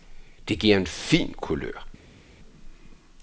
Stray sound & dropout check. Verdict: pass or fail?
pass